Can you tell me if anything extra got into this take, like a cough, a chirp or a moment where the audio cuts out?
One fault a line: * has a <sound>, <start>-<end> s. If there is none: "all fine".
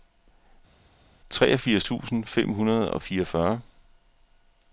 all fine